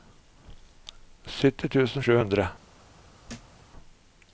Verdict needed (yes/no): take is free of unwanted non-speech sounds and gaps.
no